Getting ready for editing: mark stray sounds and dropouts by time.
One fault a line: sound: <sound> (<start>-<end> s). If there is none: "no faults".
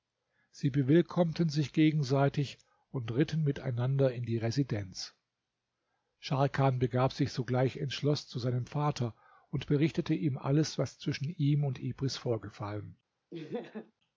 sound: laugh (13.3-13.9 s)